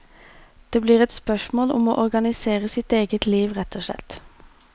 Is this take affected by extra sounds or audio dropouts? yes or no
no